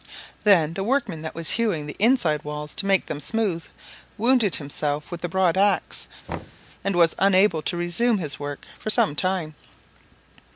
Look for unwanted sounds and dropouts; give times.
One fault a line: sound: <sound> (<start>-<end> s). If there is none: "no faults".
sound: thud (6.3-6.7 s)